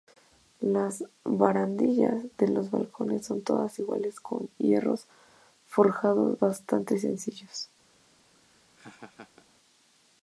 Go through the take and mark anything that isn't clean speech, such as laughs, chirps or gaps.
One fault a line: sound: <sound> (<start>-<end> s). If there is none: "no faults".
sound: laugh (8.3-9.5 s)